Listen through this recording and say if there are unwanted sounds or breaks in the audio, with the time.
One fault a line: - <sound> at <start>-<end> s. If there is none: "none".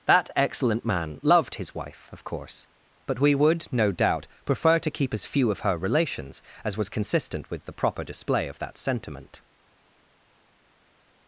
none